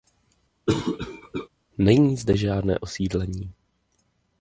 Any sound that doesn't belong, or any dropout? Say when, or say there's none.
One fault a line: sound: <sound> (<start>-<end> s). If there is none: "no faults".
sound: cough (0.7-1.5 s)